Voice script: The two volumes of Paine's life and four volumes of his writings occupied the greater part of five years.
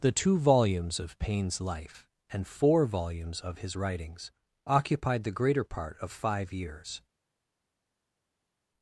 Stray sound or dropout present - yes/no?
no